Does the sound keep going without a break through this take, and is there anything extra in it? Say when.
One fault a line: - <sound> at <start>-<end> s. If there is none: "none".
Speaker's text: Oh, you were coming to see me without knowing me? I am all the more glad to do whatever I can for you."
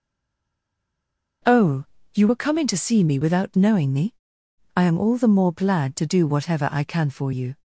none